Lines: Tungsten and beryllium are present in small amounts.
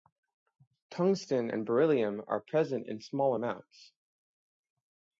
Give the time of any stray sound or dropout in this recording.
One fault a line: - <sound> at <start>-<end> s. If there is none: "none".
none